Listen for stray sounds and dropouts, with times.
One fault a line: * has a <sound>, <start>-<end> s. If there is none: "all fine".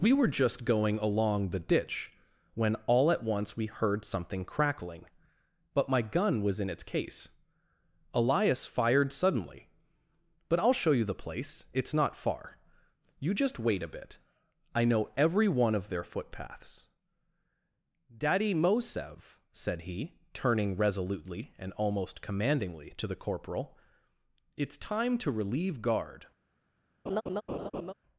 * has a laugh, 27.1-27.9 s